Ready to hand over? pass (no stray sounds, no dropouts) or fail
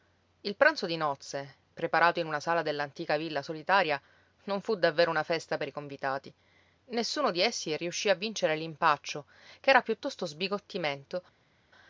pass